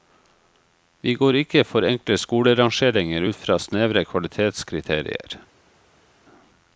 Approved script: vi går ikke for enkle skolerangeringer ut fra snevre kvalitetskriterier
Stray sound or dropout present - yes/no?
no